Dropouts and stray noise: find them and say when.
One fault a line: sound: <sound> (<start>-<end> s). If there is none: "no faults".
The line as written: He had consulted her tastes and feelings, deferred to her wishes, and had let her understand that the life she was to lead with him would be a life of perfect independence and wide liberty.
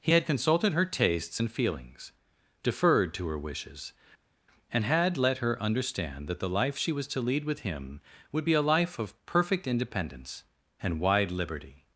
no faults